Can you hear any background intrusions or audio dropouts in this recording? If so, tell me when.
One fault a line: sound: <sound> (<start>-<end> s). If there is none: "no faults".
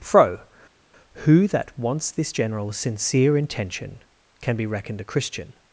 no faults